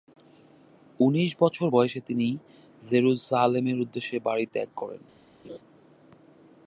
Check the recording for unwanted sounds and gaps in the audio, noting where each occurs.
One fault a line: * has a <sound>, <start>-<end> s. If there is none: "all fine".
* has a laugh, 5.4-5.6 s